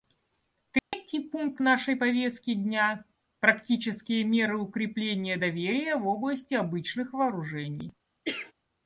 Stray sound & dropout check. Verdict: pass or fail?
fail